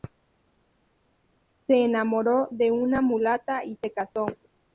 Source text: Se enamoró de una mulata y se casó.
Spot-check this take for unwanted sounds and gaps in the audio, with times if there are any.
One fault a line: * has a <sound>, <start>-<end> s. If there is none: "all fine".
all fine